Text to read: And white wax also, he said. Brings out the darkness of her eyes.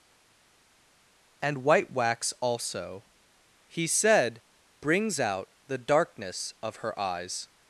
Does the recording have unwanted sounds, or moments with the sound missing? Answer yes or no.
no